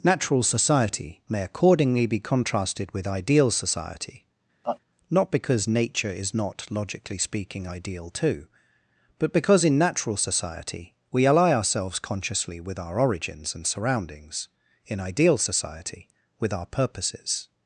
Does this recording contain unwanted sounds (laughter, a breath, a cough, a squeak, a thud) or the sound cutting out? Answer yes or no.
yes